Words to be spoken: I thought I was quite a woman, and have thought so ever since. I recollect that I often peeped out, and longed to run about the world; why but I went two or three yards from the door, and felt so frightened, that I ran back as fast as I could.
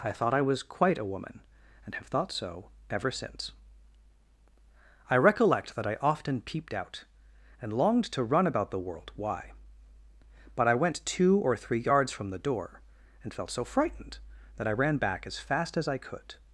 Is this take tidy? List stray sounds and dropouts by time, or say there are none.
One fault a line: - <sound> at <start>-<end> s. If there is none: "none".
none